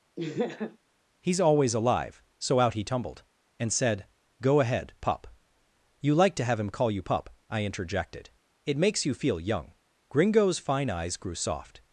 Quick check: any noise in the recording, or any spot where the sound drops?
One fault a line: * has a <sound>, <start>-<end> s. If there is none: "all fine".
* has a laugh, 0.2-0.8 s